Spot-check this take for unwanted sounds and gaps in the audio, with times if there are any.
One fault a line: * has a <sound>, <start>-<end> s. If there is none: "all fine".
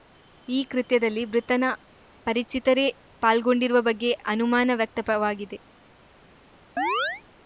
* has a chirp, 6.8-7.2 s